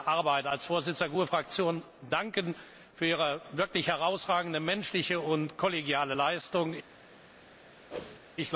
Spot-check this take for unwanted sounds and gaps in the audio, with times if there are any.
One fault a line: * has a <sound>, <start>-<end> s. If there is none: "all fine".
* has a whoosh, 7.9-8.2 s